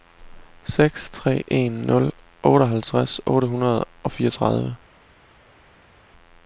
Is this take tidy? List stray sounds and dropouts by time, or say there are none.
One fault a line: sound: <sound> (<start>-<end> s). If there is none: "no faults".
no faults